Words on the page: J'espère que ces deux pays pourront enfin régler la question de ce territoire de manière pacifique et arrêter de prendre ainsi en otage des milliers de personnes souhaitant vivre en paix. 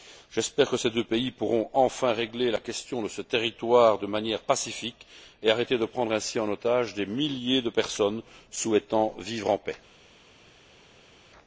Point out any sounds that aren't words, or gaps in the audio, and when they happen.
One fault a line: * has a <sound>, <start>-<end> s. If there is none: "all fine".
all fine